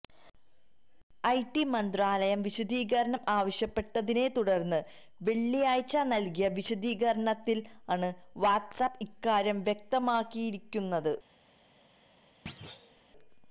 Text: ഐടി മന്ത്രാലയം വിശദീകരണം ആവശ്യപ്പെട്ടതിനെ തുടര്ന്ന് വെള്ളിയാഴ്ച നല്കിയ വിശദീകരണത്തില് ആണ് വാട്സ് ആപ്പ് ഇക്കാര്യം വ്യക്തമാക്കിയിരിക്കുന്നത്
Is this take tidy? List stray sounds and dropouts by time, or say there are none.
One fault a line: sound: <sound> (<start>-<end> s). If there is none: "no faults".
sound: thud (12.5-13.0 s)